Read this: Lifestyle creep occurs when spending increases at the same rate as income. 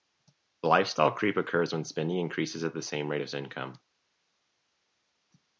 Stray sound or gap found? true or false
false